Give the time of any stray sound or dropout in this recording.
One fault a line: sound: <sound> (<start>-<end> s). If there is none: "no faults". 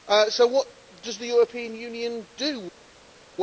no faults